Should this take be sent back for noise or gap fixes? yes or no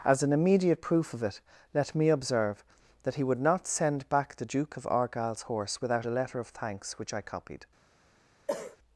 yes